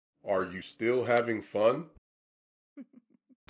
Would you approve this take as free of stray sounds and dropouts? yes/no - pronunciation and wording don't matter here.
no